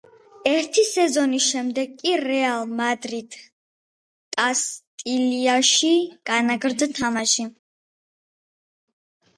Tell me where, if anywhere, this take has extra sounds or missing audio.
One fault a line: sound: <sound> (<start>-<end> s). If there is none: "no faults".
no faults